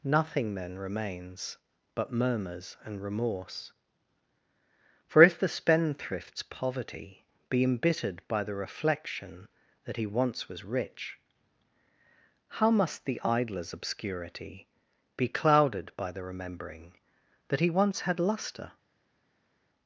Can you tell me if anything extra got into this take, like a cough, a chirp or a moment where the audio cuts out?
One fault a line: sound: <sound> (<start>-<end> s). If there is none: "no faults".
no faults